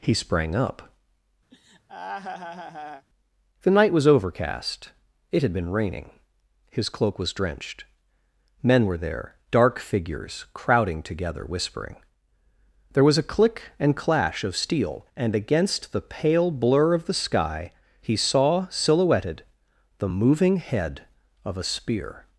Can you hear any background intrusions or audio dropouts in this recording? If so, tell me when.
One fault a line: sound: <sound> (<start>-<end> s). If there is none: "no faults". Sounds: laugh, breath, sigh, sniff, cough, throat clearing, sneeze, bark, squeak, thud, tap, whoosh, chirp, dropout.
sound: laugh (1.5-3.1 s)